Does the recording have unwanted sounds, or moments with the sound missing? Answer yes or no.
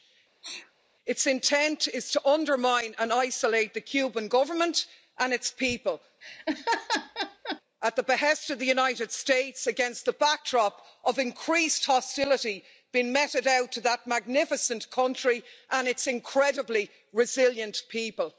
yes